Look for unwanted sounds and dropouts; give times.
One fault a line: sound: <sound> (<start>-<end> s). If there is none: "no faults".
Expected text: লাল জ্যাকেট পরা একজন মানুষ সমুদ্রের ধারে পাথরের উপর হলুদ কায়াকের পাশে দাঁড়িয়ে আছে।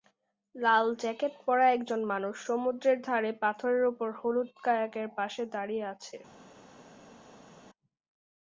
no faults